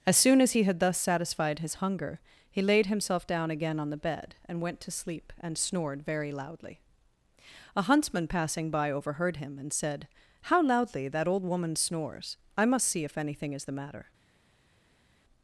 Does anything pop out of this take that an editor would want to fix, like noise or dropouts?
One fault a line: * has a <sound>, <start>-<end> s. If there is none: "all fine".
all fine